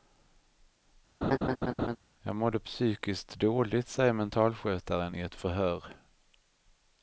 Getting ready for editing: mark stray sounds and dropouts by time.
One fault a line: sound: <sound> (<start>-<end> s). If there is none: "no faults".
sound: laugh (1.2-2.0 s)